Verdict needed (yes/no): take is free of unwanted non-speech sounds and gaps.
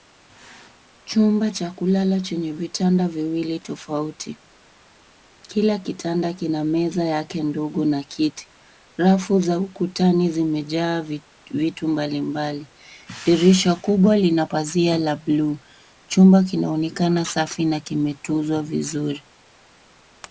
yes